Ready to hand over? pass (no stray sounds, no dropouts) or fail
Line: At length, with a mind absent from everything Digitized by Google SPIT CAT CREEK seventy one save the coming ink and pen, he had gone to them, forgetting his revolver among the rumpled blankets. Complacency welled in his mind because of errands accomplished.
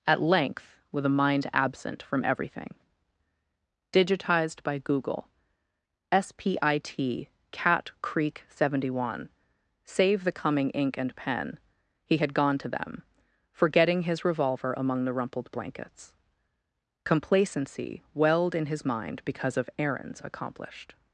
pass